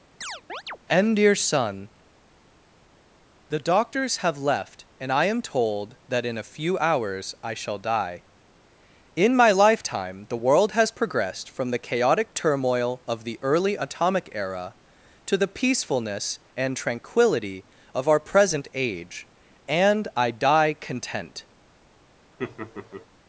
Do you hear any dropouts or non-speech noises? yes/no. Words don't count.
yes